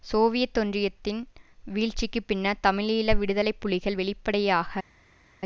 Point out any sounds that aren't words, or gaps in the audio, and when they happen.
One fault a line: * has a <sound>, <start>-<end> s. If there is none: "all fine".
all fine